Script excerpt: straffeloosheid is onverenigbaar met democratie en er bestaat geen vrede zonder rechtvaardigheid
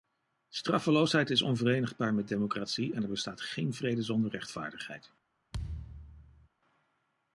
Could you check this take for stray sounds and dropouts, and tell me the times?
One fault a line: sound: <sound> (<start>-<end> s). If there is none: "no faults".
sound: thud (5.5-6.5 s)